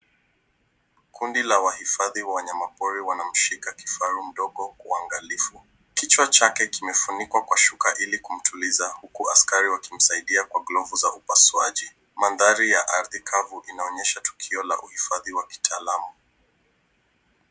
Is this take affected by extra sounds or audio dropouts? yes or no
no